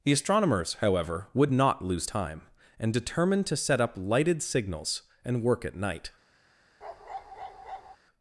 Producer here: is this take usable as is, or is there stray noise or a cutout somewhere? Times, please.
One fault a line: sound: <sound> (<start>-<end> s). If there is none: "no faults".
sound: bark (6.8-8.0 s)